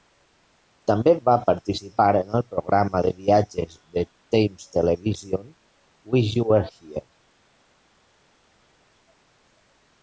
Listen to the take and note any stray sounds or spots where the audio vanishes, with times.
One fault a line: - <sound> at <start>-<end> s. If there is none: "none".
none